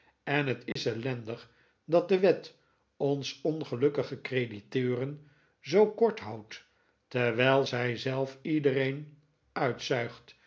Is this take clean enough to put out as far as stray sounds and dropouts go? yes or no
no